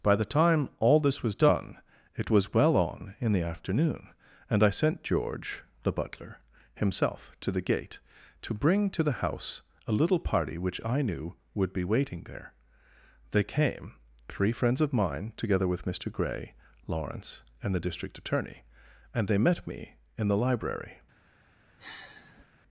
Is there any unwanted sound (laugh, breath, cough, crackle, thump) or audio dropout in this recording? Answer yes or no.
yes